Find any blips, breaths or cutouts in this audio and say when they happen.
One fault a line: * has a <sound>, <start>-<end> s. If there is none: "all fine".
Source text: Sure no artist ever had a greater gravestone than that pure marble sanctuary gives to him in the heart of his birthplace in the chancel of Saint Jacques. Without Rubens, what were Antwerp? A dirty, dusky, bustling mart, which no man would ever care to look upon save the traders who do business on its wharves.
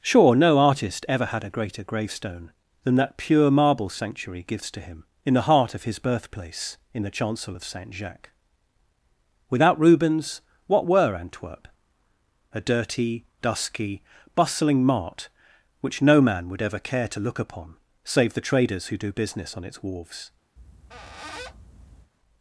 * has a squeak, 20.6-22.1 s